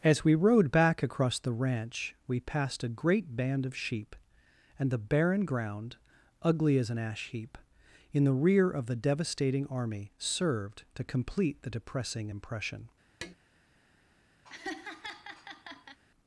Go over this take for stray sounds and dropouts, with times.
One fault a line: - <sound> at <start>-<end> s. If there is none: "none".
- tap at 13.2-13.3 s
- laugh at 14.4-16.0 s